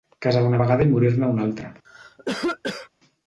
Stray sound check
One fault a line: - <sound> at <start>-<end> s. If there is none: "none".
- cough at 1.8-2.9 s